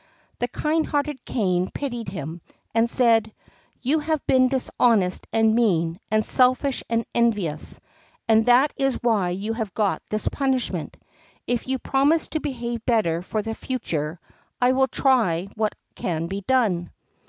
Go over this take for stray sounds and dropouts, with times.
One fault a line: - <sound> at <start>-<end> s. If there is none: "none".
none